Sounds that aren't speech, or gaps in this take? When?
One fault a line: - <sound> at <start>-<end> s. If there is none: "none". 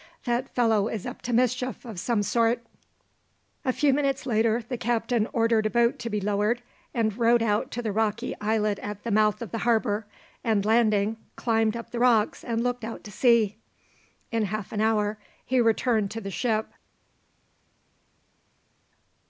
none